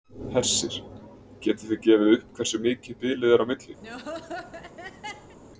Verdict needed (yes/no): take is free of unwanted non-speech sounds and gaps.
no